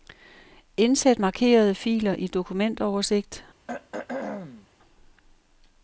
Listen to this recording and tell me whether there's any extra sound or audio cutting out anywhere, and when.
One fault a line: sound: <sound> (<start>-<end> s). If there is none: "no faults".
sound: throat clearing (3.7-4.7 s)